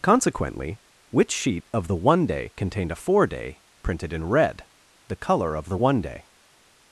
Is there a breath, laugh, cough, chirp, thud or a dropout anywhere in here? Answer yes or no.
no